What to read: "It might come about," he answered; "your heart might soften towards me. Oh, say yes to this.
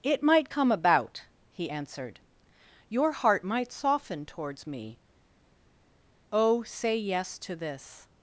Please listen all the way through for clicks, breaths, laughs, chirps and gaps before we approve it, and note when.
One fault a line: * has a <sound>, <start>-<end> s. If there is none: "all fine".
all fine